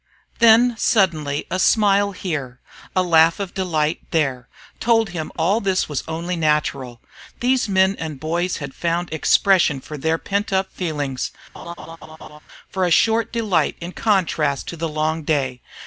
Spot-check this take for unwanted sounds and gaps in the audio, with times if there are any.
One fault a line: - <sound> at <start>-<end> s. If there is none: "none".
- laugh at 11.5-12.4 s